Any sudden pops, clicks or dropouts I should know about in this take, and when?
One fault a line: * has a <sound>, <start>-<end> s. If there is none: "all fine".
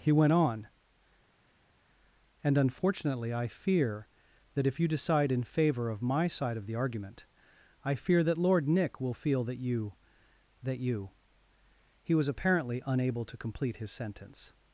all fine